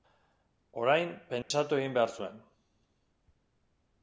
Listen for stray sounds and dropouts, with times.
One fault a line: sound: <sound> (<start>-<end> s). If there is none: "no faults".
sound: dropout (1.4-1.5 s)